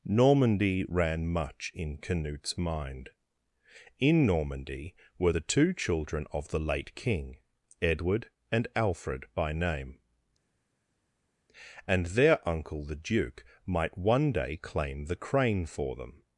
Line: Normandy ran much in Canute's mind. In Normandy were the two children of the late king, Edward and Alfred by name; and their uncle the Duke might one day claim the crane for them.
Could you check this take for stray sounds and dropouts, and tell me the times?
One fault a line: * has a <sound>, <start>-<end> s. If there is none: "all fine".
all fine